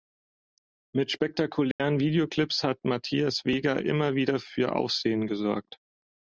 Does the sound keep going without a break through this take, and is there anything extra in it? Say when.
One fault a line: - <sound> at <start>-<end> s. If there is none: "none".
- dropout at 1.7-1.8 s